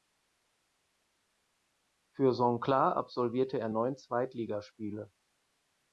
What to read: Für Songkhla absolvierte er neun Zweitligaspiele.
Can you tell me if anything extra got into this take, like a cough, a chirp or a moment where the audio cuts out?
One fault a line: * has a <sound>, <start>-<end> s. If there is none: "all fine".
all fine